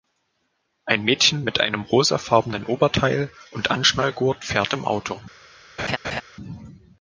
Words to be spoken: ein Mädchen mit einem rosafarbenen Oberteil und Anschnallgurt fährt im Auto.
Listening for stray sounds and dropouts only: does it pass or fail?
fail